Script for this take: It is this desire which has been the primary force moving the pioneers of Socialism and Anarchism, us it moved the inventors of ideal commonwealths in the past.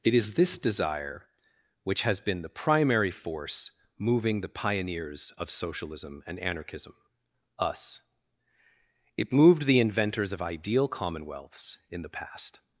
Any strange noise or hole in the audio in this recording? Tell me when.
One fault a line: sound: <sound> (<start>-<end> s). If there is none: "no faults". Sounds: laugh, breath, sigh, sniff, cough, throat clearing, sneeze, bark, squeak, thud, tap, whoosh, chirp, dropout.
no faults